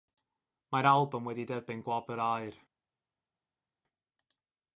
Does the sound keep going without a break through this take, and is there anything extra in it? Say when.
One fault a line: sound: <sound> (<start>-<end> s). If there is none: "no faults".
no faults